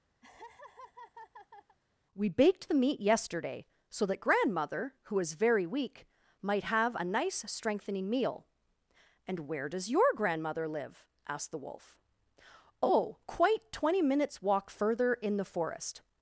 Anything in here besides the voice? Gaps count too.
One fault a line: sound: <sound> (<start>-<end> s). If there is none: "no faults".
sound: laugh (0.2-1.8 s)